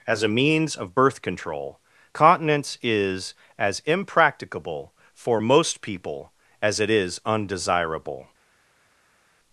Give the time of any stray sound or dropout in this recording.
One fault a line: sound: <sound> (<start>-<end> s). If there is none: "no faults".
no faults